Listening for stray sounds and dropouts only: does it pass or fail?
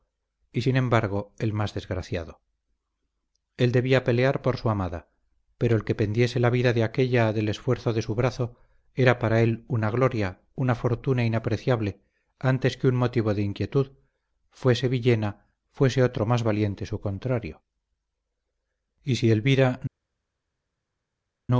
pass